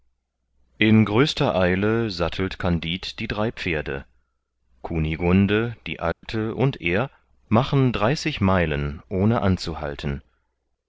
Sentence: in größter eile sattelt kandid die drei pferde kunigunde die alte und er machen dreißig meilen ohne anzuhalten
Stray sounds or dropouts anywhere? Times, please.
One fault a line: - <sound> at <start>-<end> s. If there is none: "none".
- dropout at 6.1-6.2 s